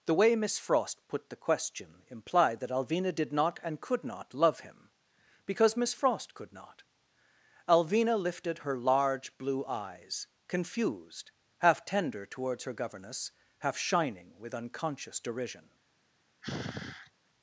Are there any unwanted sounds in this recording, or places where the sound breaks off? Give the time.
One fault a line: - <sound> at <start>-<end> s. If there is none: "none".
- sigh at 16.4-17.1 s